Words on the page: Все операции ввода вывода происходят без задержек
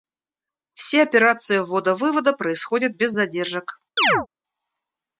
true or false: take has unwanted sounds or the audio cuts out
true